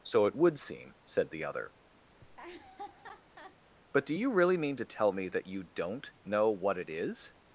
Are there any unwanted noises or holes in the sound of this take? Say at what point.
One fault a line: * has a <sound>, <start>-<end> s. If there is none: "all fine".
* has a laugh, 2.2-3.6 s